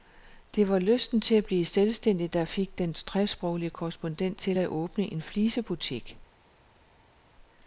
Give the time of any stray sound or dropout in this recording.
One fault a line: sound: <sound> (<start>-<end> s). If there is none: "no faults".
no faults